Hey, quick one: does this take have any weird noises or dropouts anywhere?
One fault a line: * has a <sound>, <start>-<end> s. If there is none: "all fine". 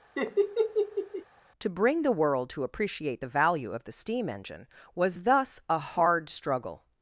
* has a laugh, 0.1-1.2 s